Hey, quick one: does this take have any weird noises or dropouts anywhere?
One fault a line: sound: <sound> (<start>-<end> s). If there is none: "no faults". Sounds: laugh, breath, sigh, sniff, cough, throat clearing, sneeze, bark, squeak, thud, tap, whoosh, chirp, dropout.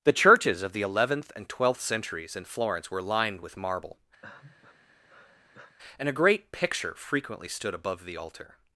sound: sigh (4.2-5.8 s)